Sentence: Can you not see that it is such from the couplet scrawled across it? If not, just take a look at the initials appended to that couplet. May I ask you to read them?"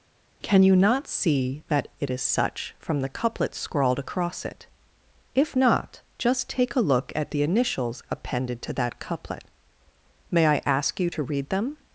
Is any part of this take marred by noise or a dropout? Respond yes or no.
no